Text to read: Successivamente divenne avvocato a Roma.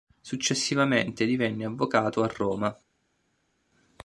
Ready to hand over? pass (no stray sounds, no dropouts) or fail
pass